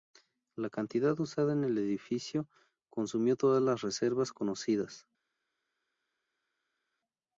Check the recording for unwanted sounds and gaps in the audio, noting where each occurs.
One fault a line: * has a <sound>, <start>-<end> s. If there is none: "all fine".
all fine